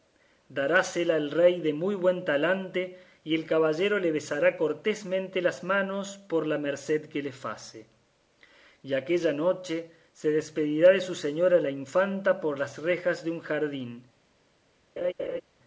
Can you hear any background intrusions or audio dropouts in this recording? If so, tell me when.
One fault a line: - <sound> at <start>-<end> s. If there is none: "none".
- laugh at 15.0-15.4 s